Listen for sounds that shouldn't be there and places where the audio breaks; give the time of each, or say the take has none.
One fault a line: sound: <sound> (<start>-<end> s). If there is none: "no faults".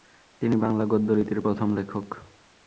no faults